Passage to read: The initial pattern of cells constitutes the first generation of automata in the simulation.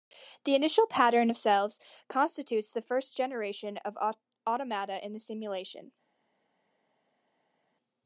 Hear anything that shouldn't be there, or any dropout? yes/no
no